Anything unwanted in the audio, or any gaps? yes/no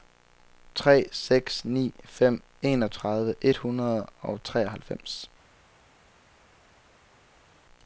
no